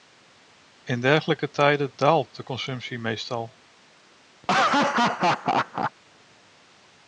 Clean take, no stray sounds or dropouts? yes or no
no